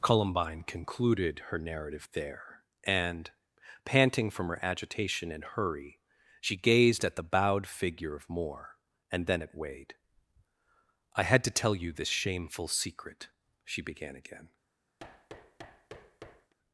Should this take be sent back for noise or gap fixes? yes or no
yes